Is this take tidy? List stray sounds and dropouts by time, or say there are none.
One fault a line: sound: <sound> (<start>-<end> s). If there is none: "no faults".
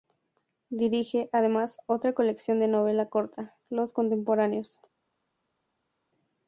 no faults